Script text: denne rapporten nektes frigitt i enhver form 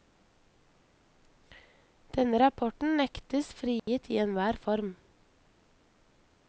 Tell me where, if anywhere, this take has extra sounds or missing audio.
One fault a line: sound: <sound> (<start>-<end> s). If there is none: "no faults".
sound: dropout (3.8-3.9 s)